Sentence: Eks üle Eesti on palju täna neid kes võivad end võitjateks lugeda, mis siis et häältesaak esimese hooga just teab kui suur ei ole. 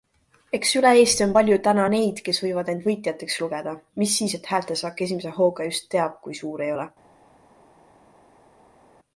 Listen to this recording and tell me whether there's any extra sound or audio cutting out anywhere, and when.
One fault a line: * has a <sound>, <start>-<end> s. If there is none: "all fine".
all fine